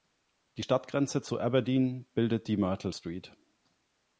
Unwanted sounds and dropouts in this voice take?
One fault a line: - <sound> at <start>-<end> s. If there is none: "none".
none